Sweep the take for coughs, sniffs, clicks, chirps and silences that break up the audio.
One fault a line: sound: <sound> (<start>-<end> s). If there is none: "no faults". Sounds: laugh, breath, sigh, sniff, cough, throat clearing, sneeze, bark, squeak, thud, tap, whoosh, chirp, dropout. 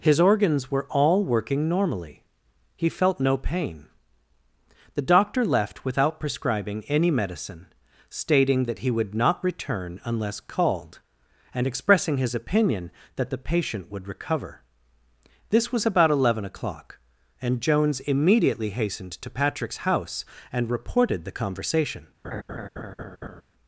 sound: laugh (22.2-23.4 s)